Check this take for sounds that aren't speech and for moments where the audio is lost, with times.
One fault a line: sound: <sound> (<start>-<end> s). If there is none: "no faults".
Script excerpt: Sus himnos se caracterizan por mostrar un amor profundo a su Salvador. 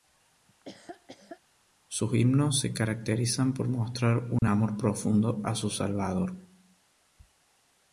sound: laugh (0.5-1.4 s)
sound: dropout (4.4-4.4 s)